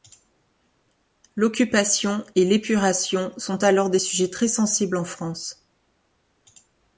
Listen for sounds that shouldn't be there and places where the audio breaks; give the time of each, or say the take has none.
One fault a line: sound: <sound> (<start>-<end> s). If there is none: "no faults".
no faults